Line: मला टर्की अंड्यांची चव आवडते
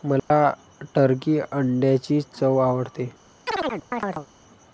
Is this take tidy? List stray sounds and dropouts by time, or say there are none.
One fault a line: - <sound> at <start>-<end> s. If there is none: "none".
- dropout at 0.2-0.3 s
- chirp at 3.5-4.3 s